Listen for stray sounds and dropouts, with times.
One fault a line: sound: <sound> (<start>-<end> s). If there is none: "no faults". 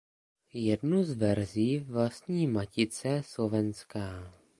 no faults